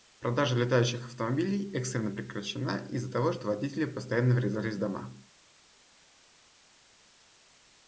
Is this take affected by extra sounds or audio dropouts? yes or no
no